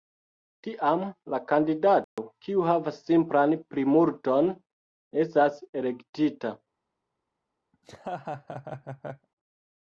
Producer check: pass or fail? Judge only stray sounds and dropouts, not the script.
fail